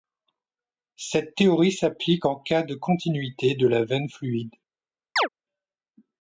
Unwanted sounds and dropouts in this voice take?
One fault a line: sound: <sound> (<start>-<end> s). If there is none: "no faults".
sound: chirp (5.2-5.3 s)